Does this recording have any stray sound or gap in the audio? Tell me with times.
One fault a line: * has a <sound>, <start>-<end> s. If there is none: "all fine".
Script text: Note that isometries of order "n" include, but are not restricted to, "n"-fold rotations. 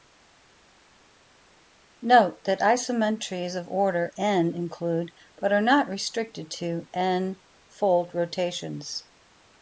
all fine